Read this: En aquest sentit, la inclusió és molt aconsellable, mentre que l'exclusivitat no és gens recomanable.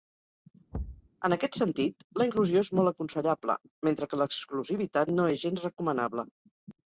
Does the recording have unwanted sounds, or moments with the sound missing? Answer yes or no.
yes